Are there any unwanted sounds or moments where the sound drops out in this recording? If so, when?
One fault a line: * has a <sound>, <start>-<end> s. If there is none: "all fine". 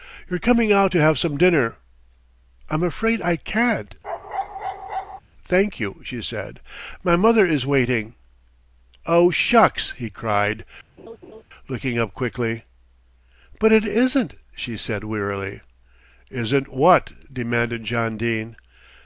* has a bark, 4.0-5.2 s
* has a laugh, 11.0-11.4 s